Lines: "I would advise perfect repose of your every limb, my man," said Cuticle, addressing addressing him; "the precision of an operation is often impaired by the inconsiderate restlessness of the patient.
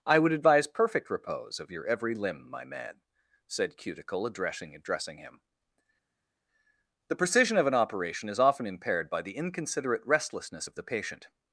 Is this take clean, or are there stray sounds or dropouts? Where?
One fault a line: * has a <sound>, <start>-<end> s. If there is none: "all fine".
all fine